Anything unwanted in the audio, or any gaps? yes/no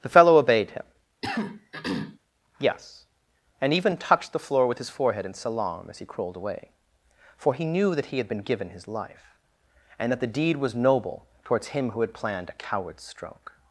yes